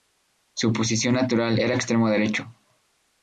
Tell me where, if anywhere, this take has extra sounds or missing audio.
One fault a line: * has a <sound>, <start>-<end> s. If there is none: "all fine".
all fine